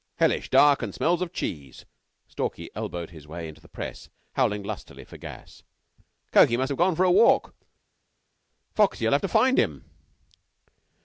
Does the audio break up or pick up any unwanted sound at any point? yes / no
no